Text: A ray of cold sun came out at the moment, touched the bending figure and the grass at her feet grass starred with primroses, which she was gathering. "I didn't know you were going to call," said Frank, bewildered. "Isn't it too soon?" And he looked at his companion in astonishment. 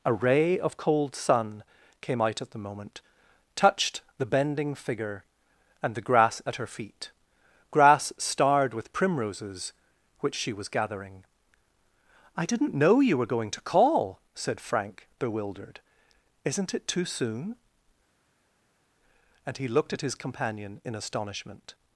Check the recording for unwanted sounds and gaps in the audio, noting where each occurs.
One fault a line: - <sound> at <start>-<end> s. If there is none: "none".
none